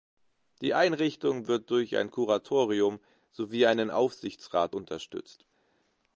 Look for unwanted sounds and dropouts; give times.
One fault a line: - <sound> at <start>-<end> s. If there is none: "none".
none